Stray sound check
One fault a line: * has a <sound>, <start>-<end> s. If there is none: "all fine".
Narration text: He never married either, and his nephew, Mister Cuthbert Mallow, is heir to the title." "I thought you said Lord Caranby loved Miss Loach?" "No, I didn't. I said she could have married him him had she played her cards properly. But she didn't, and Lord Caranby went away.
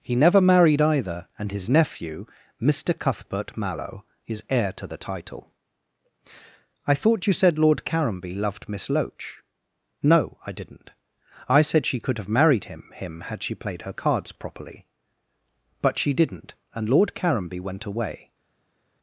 all fine